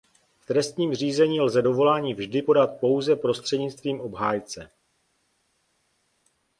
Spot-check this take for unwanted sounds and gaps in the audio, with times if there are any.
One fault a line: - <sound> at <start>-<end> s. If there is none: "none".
none